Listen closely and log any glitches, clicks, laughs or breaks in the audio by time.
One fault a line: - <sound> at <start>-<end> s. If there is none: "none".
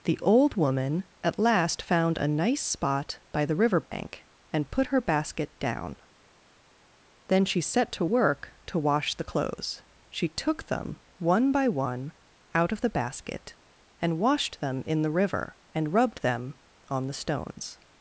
- dropout at 3.9-3.9 s